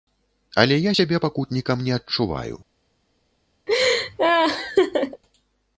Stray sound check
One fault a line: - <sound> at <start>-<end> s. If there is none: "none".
- laugh at 3.7-5.2 s